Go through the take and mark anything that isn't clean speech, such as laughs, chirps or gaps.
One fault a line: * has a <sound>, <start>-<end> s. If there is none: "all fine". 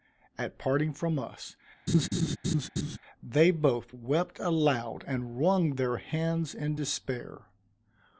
* has a laugh, 1.9-3.0 s